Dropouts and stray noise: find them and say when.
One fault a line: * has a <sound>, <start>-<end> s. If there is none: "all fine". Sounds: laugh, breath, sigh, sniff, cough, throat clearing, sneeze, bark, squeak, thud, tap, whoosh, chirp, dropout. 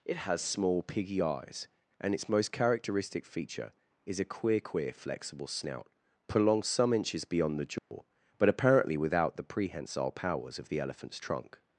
* has a dropout, 7.8-7.9 s